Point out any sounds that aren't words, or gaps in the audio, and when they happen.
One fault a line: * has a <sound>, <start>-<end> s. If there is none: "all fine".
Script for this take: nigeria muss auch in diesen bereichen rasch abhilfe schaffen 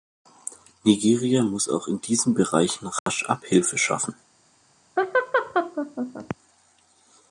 * has a dropout, 3.0-3.1 s
* has a laugh, 5.0-6.4 s